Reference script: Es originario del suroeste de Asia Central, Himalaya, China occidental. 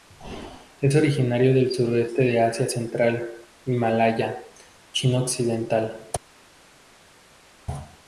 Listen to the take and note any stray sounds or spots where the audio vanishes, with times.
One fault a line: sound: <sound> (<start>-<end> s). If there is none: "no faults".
no faults